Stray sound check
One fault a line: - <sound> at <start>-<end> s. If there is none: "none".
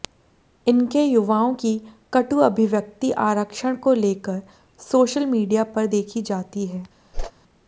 - whoosh at 7.1-7.3 s